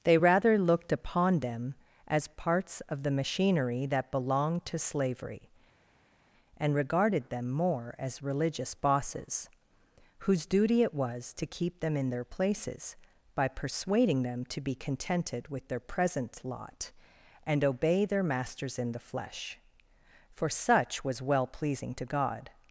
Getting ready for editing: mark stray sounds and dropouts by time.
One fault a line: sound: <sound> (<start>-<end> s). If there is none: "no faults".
no faults